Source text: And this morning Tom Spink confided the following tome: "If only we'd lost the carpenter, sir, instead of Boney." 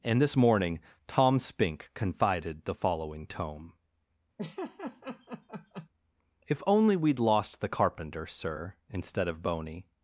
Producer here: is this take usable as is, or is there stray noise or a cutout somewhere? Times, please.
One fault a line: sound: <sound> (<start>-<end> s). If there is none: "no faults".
sound: laugh (4.4-5.9 s)